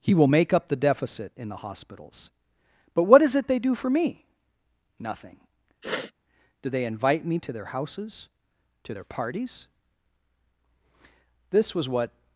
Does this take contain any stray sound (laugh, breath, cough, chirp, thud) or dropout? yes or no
yes